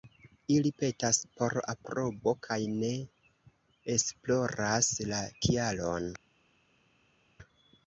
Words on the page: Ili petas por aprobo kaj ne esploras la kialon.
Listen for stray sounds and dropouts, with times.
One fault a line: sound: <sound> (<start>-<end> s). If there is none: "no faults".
no faults